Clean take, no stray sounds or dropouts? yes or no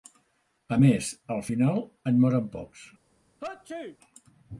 no